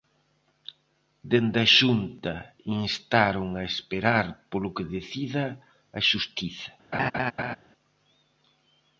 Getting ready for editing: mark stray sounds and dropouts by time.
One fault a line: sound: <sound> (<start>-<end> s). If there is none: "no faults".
sound: laugh (6.9-7.6 s)